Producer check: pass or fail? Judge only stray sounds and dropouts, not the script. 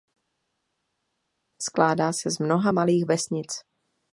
pass